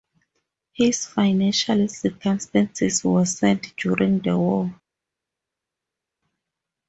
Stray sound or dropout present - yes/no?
no